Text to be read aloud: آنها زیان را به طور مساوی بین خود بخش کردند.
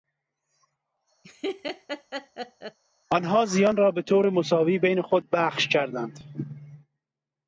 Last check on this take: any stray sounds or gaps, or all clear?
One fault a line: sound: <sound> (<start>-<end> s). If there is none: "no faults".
sound: laugh (1.2-2.8 s)